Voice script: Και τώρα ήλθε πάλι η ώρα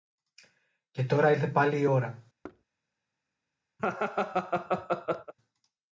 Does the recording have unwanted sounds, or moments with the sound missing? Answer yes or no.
yes